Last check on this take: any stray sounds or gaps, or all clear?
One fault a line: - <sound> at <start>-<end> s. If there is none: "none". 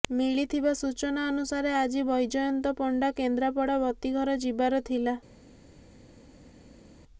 none